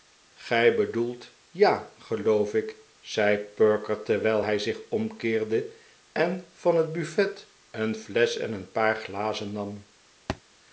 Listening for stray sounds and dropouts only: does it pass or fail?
fail